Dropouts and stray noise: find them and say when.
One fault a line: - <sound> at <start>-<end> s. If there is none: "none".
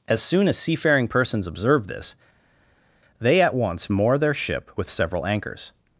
none